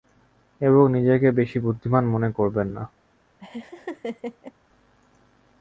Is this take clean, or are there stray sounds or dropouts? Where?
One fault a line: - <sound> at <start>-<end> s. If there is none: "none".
- laugh at 3.4-4.5 s